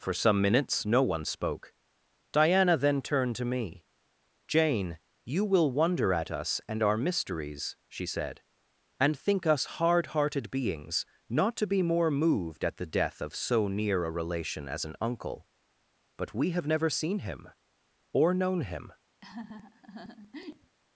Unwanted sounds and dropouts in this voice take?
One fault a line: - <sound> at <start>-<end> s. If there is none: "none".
- laugh at 19.2-20.8 s